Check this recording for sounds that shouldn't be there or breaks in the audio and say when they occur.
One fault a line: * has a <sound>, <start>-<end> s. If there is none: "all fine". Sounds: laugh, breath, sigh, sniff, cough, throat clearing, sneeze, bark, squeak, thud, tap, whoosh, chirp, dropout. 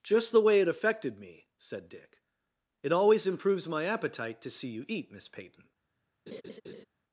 * has a laugh, 6.3-6.8 s